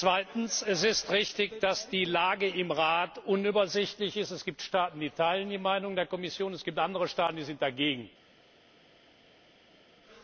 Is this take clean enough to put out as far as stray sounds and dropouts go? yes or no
yes